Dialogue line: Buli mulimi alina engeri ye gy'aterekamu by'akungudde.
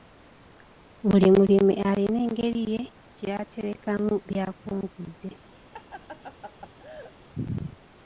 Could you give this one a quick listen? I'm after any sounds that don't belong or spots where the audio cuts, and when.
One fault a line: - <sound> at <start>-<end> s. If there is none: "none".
- laugh at 5.7-7.1 s